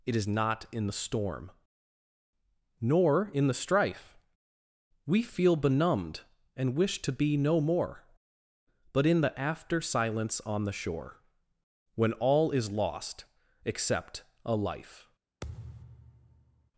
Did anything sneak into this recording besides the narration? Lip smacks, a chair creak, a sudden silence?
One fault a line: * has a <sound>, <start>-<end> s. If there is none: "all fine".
* has a thud, 15.4-16.7 s